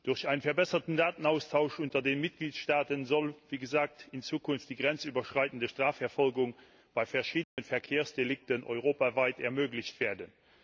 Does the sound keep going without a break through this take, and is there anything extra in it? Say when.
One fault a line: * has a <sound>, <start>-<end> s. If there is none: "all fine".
* has a dropout, 7.4-7.6 s